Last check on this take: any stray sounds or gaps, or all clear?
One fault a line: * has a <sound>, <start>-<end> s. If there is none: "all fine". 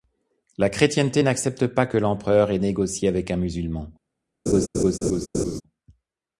* has a laugh, 4.5-5.6 s